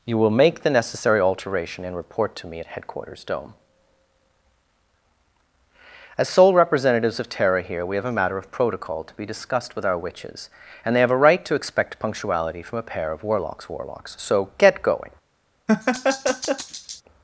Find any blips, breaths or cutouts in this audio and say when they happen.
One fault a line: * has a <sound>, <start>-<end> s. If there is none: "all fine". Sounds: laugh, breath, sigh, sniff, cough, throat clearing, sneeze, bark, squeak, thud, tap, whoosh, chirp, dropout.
* has a laugh, 15.7-17.0 s